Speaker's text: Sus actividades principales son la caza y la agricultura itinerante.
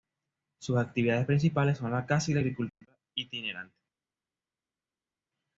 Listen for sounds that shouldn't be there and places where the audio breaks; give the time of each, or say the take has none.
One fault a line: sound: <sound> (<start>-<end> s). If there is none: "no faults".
no faults